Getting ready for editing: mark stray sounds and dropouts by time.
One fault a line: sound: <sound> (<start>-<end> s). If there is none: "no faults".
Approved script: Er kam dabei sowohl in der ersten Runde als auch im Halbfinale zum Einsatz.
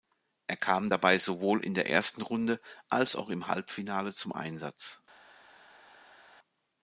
no faults